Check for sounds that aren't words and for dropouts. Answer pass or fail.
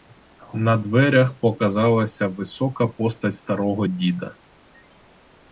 pass